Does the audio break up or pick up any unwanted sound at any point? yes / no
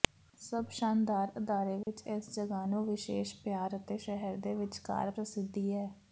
yes